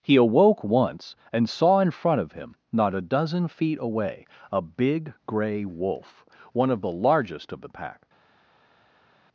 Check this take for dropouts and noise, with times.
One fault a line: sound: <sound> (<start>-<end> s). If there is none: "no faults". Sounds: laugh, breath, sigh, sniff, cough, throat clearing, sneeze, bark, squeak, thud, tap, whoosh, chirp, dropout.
no faults